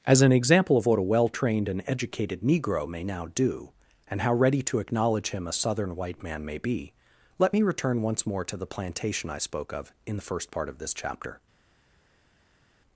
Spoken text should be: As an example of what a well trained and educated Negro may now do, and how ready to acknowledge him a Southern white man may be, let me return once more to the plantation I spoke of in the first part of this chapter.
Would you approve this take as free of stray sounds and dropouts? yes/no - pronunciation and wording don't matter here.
yes